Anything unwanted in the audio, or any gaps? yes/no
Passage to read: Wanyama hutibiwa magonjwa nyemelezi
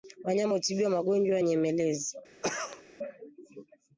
yes